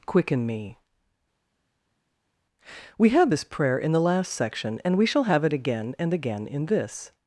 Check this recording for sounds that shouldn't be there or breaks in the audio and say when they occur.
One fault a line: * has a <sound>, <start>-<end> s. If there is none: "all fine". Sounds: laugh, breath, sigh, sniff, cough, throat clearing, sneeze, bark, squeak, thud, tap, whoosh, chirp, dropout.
all fine